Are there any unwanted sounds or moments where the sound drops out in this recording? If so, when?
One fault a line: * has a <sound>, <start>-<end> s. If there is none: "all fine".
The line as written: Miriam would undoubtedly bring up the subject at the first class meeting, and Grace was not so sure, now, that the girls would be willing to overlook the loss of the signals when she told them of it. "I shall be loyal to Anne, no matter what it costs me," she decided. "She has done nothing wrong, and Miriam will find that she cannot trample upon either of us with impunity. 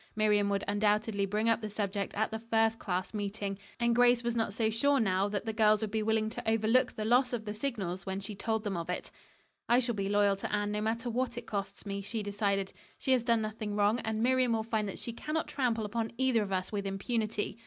all fine